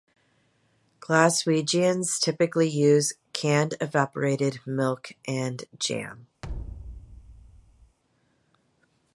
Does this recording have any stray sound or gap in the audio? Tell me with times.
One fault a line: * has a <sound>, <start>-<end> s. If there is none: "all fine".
* has a thud, 6.4-8.0 s